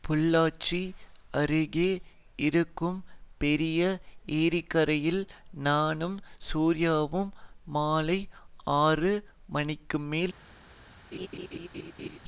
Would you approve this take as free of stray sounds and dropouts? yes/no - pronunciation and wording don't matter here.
no